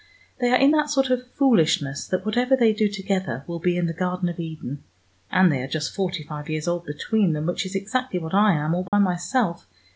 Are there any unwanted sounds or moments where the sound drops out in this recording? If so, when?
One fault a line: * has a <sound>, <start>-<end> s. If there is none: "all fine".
* has a dropout, 8.9-8.9 s